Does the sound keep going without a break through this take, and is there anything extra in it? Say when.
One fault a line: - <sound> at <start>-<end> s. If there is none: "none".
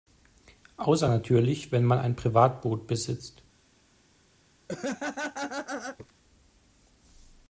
- laugh at 4.7-6.1 s